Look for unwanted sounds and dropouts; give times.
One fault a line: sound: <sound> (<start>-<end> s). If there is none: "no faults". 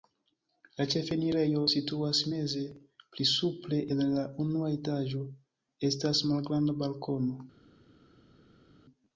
no faults